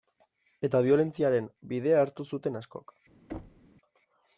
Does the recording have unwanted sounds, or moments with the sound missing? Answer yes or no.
yes